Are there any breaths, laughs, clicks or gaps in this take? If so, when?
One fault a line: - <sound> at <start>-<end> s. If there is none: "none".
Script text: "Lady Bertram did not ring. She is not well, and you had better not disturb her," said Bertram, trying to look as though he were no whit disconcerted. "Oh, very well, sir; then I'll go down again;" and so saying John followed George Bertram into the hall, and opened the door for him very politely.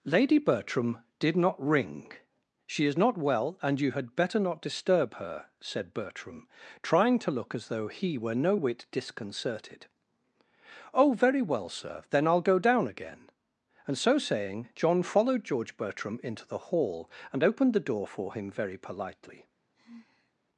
- sigh at 19.7-20.3 s